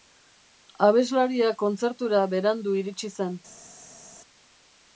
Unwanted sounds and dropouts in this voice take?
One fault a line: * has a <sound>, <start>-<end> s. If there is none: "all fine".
all fine